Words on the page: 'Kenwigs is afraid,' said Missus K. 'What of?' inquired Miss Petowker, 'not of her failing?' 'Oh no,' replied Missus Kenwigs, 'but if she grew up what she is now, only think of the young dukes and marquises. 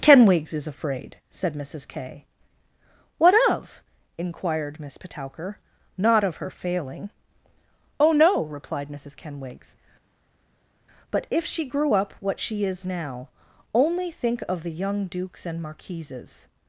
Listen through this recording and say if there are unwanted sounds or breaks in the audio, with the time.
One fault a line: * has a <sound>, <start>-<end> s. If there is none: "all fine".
all fine